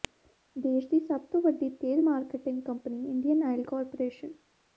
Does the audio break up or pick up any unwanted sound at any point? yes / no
no